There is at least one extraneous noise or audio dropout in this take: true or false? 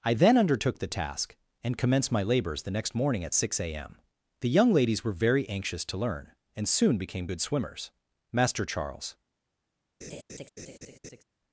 true